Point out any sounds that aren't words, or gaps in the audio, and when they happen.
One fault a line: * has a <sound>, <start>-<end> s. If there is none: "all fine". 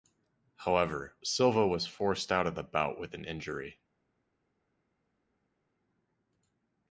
all fine